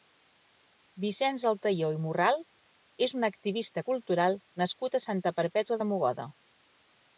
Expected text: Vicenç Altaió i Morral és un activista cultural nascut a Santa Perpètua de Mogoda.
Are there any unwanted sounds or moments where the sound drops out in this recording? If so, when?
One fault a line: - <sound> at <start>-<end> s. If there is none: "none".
none